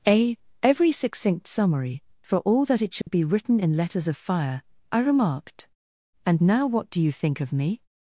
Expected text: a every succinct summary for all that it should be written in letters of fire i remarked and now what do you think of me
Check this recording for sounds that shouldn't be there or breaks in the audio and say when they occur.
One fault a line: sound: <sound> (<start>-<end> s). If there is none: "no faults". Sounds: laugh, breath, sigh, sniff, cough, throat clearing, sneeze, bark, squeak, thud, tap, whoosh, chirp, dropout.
sound: dropout (3.0-3.1 s)